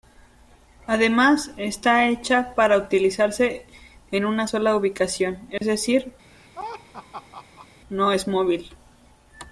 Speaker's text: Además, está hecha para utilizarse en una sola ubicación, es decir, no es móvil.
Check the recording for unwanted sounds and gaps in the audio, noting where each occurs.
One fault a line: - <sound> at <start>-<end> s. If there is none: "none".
- dropout at 5.6-5.6 s
- laugh at 6.3-7.7 s